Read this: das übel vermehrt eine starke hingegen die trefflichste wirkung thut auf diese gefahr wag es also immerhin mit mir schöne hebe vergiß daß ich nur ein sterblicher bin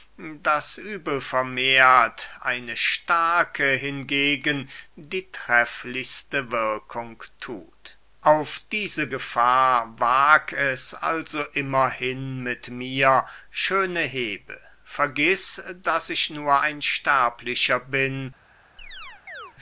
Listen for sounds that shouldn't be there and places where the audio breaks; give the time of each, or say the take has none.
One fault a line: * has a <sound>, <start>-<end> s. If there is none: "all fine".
* has a chirp, 18.8-19.5 s